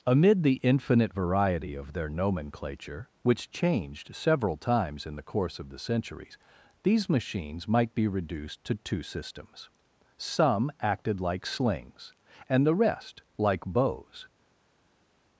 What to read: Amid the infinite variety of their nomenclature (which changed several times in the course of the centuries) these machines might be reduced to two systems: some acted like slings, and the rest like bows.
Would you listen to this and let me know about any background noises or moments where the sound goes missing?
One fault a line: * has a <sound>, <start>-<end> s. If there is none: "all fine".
all fine